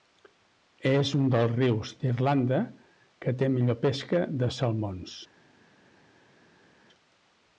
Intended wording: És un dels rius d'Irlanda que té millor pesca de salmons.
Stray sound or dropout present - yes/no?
no